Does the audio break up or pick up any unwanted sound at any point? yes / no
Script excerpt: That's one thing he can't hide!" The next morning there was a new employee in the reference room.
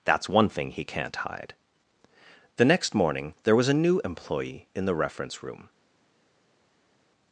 no